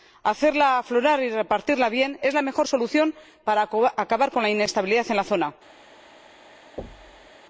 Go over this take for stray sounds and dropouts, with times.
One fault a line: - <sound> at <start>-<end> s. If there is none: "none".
- thud at 6.8-7.3 s